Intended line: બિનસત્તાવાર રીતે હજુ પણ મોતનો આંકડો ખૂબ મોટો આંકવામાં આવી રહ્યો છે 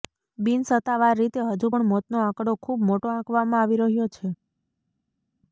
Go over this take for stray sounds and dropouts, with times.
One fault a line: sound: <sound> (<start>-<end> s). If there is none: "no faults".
no faults